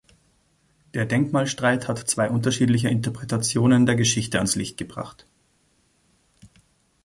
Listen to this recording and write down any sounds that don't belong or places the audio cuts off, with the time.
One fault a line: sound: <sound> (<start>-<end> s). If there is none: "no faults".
no faults